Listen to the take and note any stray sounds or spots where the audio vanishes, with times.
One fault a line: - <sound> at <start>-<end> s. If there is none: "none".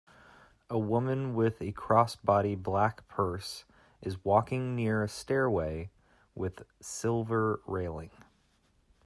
none